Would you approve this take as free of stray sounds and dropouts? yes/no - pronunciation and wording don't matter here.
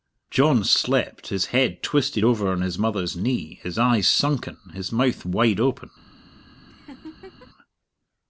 no